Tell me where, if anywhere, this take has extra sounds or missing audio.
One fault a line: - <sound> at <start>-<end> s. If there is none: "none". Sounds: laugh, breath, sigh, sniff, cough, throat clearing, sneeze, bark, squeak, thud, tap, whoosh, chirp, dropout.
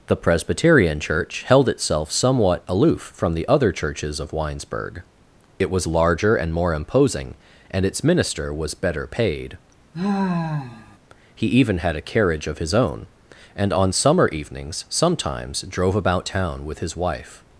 - sigh at 9.9-11.0 s